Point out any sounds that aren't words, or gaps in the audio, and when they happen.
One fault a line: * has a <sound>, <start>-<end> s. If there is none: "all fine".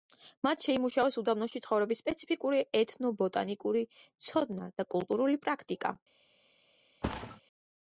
* has a thud, 7.0-7.4 s